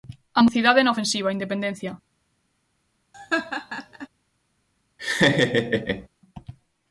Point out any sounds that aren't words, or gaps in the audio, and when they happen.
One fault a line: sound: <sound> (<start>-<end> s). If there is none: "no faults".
sound: laugh (3.1-4.1 s)
sound: laugh (5.0-6.1 s)